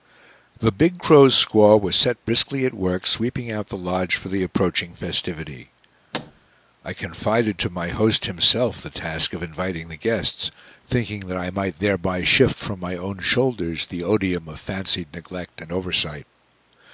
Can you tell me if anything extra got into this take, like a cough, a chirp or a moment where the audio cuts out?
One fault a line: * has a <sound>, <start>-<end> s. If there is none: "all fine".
* has a thud, 6.1-6.5 s